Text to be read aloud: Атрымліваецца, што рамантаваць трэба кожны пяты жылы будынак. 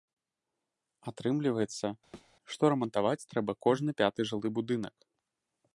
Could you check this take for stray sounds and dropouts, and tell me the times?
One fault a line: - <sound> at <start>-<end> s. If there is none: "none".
- thud at 2.1-2.3 s